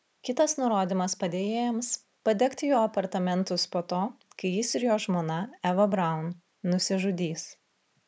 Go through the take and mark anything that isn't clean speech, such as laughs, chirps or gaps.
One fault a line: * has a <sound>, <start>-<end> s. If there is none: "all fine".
all fine